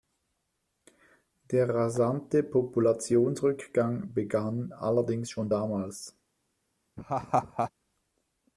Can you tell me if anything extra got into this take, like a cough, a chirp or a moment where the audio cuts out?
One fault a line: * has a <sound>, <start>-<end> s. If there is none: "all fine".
* has a laugh, 7.0-7.7 s